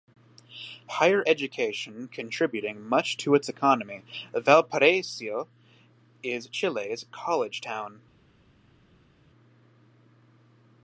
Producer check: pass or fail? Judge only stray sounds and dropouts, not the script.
pass